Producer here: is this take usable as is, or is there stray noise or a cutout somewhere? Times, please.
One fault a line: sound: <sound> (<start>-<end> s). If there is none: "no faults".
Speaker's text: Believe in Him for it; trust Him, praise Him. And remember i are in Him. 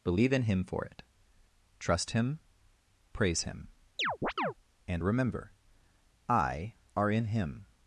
sound: chirp (4.0-4.5 s)